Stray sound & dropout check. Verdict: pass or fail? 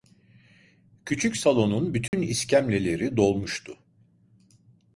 fail